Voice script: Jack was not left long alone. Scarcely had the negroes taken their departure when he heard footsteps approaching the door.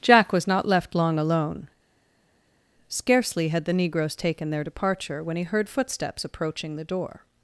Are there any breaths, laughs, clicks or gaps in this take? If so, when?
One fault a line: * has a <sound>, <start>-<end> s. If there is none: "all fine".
all fine